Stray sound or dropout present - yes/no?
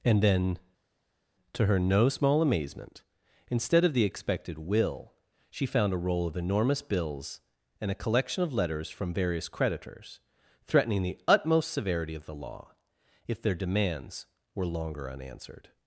no